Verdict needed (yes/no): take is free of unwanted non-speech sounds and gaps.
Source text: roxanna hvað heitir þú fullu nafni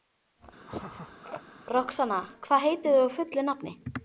no